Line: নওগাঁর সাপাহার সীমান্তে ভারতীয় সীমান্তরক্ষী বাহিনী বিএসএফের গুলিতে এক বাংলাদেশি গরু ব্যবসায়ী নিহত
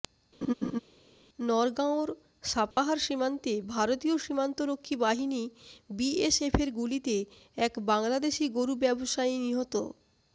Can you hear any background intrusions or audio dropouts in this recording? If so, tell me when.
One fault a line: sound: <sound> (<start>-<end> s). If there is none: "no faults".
sound: laugh (0.4-0.8 s)
sound: dropout (2.7-2.8 s)